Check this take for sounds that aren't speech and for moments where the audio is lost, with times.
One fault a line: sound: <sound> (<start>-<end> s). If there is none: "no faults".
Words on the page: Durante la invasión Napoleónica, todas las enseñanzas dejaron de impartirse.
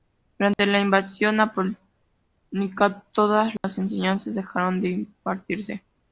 sound: dropout (0.5-0.6 s)
sound: dropout (3.6-3.6 s)